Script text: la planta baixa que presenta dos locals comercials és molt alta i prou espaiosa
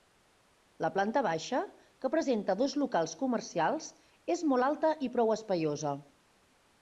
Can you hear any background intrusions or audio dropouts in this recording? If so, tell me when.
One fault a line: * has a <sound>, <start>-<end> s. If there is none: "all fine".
all fine